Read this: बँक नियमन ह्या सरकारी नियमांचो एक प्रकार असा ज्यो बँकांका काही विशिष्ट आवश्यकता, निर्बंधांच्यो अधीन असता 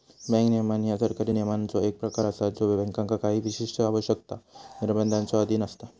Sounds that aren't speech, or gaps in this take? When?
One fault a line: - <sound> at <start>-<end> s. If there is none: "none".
none